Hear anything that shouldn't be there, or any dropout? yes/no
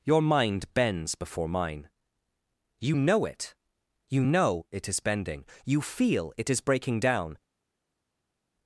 no